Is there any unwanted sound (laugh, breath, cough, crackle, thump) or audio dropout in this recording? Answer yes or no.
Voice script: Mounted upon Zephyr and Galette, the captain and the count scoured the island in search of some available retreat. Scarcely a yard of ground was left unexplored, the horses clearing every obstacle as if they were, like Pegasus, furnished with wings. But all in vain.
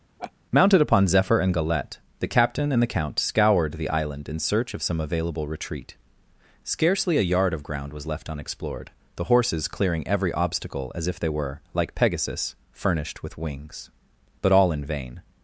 yes